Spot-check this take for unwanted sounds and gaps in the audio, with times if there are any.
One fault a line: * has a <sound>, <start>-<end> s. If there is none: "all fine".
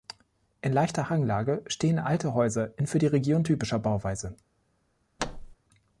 * has a thud, 5.2-5.6 s